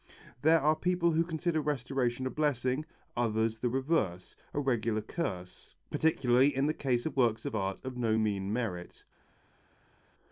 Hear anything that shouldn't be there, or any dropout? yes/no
no